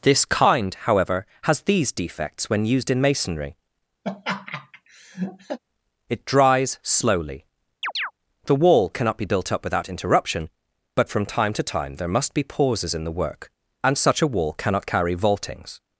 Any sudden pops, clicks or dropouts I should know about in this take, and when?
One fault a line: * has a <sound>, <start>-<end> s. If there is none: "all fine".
* has a laugh, 4.0-5.6 s
* has a chirp, 7.8-8.1 s